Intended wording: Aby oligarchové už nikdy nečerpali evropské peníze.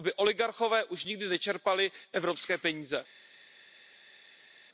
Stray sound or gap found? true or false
false